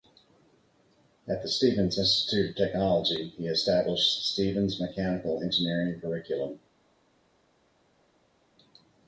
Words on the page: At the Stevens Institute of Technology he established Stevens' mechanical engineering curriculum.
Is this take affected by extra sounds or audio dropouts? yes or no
no